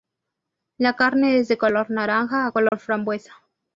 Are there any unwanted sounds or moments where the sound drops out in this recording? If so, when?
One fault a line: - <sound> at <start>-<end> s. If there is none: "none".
- dropout at 2.7-2.7 s